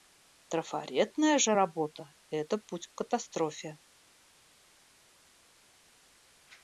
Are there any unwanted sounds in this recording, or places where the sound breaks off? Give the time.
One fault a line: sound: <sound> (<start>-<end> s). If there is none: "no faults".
no faults